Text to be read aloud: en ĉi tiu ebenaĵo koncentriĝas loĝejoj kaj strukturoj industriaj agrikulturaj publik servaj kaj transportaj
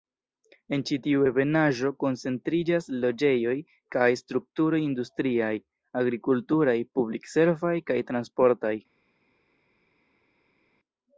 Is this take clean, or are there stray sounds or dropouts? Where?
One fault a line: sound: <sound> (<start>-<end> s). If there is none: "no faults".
no faults